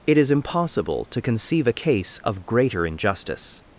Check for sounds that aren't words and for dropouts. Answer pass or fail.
pass